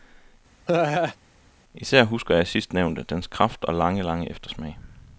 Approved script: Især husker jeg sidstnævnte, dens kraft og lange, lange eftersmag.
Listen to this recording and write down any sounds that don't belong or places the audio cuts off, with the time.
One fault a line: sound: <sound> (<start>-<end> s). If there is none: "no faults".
sound: laugh (0.7-1.2 s)